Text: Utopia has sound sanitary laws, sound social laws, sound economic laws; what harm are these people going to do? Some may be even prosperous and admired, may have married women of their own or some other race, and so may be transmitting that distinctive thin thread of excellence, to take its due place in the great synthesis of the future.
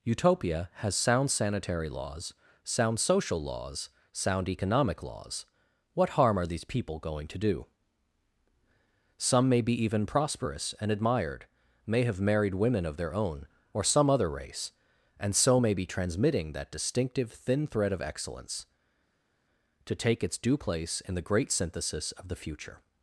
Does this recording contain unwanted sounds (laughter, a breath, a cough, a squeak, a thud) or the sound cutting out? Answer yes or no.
no